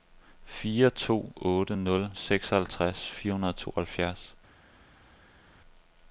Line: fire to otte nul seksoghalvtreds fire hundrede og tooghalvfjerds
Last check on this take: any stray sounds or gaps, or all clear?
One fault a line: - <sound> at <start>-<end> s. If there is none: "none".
none